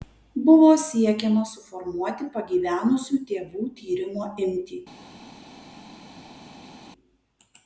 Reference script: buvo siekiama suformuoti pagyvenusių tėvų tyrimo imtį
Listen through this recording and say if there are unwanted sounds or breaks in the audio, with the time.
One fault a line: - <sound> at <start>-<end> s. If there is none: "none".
none